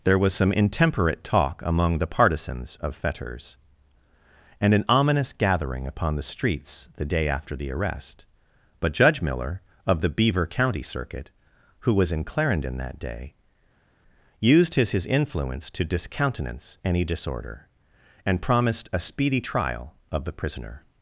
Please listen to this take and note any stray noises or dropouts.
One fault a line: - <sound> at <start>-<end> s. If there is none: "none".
none